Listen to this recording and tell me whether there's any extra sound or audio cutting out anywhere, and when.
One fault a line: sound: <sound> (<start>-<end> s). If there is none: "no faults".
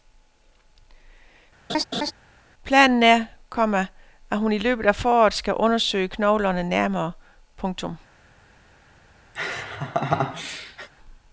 sound: laugh (1.7-2.1 s)
sound: laugh (9.4-10.9 s)